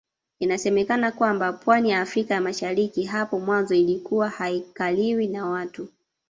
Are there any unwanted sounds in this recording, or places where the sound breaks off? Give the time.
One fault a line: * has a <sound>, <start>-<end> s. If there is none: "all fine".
all fine